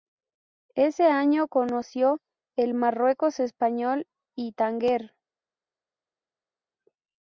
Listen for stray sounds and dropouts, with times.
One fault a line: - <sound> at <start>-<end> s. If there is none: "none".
none